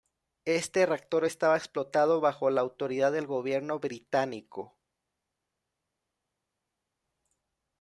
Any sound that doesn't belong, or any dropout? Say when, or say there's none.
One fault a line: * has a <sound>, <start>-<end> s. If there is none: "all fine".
all fine